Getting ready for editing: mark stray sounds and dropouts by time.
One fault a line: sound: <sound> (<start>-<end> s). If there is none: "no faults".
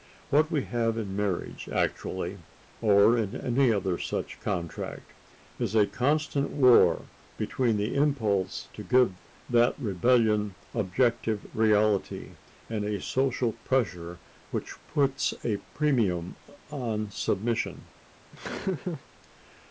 sound: laugh (18.3-19.0 s)